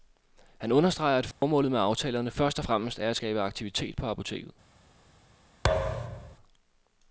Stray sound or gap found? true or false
true